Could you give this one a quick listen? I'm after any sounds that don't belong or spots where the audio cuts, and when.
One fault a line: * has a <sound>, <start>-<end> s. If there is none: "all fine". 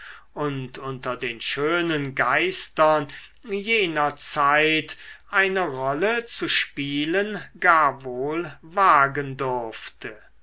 all fine